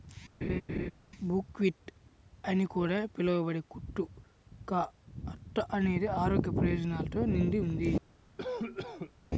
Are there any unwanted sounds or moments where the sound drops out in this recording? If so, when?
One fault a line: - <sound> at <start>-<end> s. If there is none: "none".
- laugh at 0.4-0.9 s
- cough at 8.4-9.1 s